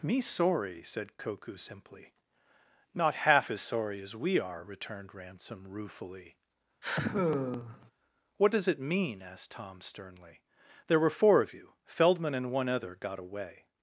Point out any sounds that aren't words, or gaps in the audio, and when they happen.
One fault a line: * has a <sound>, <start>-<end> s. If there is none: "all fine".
* has a sigh, 6.8-7.9 s